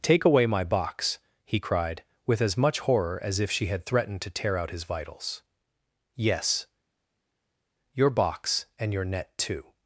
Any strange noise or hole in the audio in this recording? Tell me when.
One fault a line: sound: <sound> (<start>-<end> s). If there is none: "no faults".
no faults